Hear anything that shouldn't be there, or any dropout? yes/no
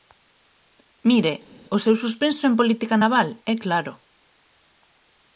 no